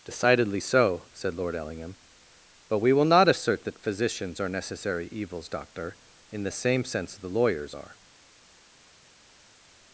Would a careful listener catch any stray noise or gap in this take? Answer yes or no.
no